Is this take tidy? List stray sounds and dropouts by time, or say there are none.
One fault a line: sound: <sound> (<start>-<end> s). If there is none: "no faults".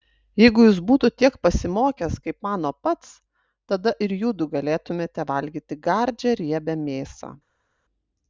no faults